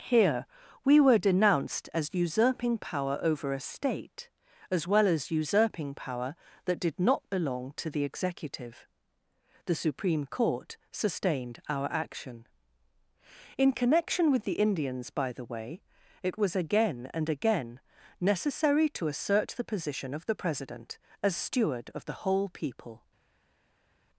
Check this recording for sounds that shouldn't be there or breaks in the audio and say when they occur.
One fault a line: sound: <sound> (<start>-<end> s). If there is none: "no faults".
no faults